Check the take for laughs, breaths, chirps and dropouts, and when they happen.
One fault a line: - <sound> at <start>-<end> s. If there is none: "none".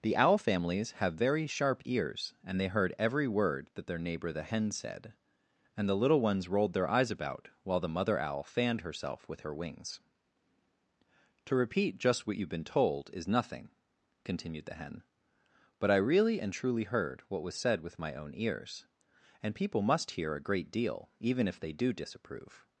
none